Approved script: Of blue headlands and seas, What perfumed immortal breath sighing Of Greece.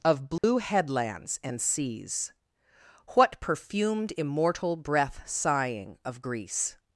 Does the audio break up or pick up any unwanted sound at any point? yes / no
yes